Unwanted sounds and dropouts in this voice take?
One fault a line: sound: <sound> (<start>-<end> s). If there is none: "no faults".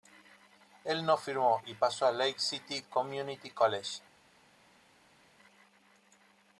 no faults